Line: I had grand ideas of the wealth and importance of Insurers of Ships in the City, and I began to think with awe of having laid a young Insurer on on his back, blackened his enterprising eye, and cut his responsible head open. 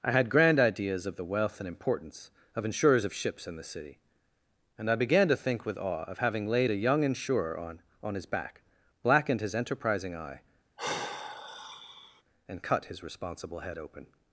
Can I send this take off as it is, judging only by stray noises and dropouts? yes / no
no